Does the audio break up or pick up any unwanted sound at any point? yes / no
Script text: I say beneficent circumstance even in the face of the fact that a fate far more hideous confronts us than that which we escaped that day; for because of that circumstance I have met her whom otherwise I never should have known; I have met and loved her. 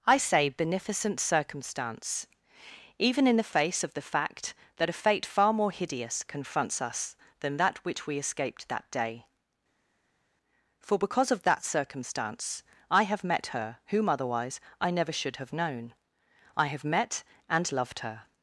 no